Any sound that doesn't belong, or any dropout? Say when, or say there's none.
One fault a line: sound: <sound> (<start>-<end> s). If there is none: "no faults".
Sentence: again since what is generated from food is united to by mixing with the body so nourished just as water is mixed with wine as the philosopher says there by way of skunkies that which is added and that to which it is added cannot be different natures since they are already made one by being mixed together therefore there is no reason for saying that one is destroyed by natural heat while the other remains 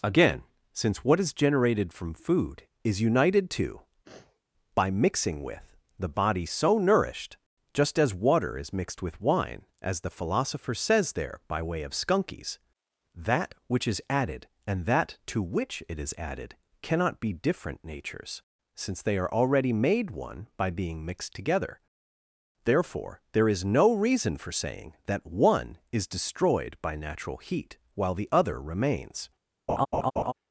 sound: sniff (4.0-4.4 s)
sound: laugh (29.7-30.3 s)